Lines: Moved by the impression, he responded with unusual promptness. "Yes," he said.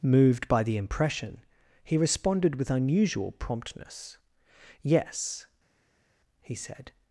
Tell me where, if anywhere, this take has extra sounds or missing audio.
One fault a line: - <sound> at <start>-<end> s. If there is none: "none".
none